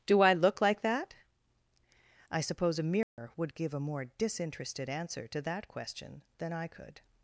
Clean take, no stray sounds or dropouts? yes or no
no